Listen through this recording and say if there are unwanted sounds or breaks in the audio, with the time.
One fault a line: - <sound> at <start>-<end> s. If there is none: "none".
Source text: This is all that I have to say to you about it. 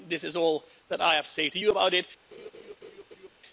- laugh at 2.3-3.3 s